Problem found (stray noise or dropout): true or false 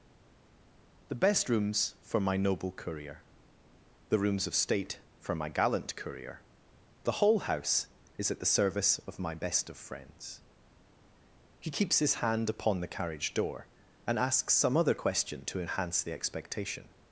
false